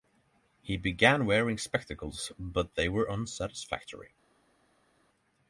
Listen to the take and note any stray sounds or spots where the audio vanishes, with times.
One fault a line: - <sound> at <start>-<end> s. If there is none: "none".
none